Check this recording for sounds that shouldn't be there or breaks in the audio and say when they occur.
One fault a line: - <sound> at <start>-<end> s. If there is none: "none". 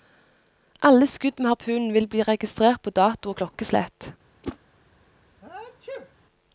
- whoosh at 4.4-4.6 s
- sneeze at 5.4-6.2 s